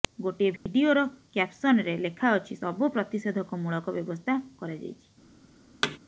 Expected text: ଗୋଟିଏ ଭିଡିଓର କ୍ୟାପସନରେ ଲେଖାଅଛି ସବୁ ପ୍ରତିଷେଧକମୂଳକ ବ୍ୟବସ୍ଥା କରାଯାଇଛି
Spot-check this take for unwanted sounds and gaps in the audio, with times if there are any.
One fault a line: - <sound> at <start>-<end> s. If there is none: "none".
- dropout at 0.6-0.7 s
- thud at 5.8-6.0 s